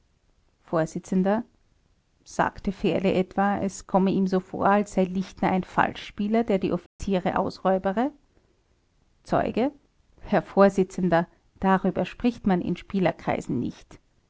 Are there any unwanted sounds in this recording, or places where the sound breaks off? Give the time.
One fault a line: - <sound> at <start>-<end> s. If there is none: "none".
- dropout at 6.9-7.0 s